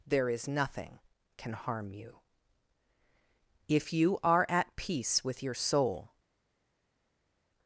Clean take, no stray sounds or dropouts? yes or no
yes